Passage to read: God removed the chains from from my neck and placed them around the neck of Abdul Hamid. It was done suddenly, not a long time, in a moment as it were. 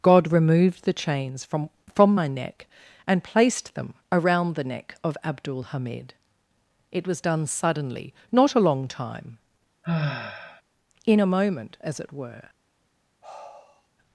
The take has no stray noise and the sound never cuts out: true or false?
false